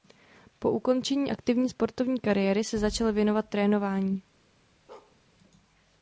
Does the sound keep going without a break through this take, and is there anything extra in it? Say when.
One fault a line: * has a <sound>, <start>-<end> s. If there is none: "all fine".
* has a bark, 4.9-5.2 s